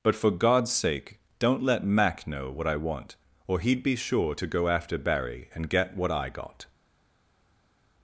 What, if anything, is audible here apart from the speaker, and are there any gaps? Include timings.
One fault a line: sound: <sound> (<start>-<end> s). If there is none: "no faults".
no faults